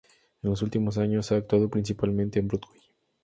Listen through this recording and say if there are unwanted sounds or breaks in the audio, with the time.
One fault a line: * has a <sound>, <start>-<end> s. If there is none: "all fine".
all fine